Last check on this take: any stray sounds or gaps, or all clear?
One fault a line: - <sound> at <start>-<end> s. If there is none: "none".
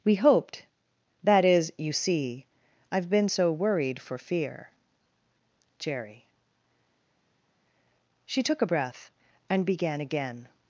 none